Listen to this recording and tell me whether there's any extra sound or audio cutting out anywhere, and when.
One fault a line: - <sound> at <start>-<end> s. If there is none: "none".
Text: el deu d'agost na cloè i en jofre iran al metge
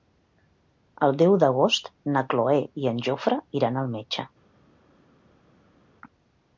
none